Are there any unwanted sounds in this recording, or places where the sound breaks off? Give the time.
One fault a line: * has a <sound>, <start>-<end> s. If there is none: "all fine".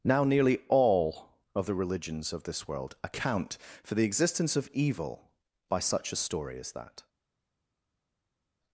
all fine